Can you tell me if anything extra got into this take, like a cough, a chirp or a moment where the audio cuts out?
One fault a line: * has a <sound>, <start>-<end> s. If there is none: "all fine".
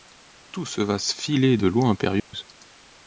* has a dropout, 2.2-2.3 s